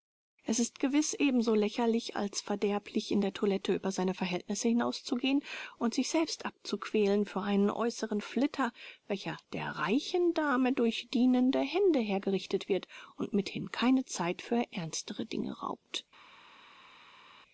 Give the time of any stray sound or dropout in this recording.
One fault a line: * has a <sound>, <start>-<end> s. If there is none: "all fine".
all fine